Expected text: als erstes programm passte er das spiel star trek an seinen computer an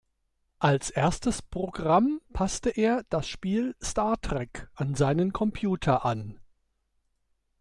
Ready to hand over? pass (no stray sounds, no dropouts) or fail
pass